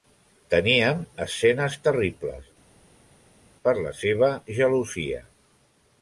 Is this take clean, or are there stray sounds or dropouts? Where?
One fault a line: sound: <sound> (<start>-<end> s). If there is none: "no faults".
no faults